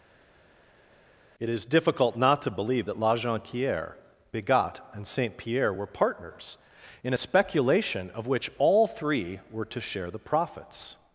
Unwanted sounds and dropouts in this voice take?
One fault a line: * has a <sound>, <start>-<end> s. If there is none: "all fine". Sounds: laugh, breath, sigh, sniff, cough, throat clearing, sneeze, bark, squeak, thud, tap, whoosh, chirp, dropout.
all fine